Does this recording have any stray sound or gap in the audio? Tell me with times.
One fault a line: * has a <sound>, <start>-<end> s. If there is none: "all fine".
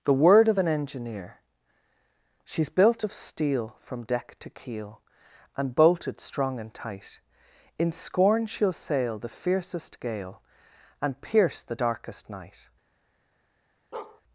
* has a bark, 13.9-14.2 s